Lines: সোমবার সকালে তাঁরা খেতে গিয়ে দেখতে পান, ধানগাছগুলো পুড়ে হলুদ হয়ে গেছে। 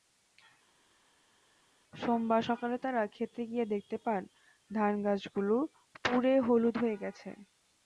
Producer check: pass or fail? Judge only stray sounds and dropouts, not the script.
pass